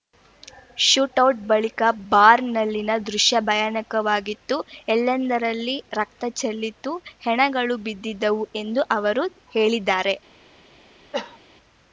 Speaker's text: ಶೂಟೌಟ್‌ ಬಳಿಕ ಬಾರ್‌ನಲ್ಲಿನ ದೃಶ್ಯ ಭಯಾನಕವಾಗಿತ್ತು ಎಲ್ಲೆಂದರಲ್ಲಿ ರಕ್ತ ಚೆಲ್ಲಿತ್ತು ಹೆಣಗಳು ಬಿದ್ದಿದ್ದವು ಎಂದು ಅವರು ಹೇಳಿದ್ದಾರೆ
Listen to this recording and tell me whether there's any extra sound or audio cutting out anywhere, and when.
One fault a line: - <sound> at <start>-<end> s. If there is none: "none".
- cough at 11.1-11.4 s